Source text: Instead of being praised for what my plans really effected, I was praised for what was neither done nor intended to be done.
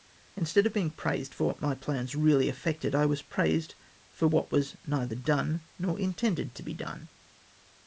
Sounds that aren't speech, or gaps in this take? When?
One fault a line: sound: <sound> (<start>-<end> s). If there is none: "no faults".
no faults